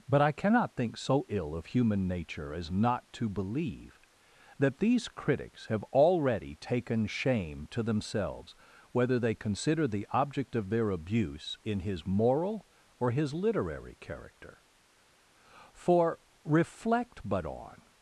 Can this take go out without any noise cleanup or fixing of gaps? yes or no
yes